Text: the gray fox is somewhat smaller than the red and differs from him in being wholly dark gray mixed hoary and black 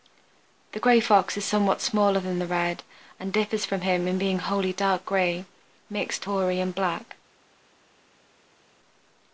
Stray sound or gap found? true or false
false